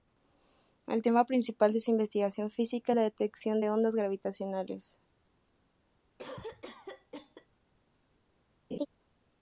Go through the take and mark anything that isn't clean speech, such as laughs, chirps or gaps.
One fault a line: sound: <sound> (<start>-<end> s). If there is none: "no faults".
sound: cough (6.2-7.5 s)
sound: laugh (8.7-8.9 s)